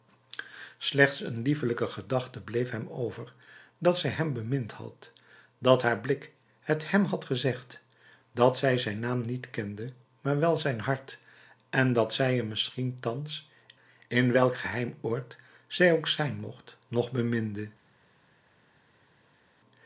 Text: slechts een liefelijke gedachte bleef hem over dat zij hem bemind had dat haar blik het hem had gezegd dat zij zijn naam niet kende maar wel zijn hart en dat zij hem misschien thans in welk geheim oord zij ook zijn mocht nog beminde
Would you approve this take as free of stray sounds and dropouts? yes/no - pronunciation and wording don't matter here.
yes